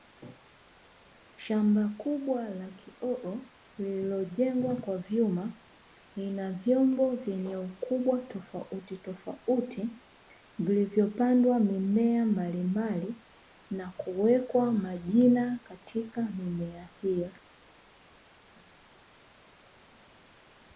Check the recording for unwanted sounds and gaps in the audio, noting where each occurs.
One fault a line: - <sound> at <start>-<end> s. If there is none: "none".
none